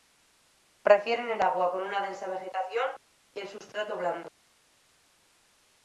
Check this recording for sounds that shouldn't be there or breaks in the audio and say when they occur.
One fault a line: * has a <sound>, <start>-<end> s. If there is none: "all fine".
all fine